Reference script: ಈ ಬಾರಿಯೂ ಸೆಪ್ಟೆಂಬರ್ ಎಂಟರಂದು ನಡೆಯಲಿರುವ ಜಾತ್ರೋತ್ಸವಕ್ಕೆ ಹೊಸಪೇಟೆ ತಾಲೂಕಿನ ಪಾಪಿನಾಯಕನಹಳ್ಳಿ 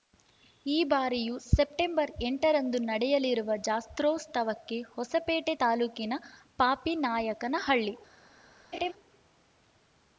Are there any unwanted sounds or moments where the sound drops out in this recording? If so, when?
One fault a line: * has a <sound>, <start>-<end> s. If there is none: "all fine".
* has a laugh, 8.7-8.9 s